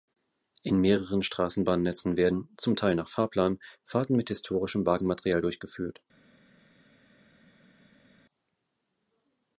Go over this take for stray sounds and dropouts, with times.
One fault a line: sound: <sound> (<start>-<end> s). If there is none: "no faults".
no faults